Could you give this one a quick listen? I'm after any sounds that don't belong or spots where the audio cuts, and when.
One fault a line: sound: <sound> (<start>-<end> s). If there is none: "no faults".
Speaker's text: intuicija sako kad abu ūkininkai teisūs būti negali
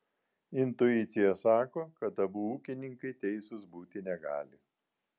no faults